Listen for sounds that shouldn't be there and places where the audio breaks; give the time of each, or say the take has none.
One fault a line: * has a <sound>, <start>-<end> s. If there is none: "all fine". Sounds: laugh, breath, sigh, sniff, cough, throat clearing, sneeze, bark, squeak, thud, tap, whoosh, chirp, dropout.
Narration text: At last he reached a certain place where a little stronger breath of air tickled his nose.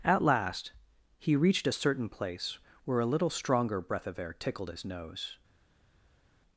all fine